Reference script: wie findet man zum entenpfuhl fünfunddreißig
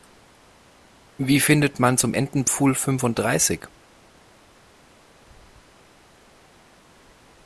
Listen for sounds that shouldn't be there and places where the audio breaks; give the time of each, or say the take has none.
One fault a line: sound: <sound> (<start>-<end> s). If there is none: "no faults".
no faults